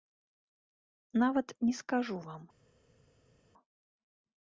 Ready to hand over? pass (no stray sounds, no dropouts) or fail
pass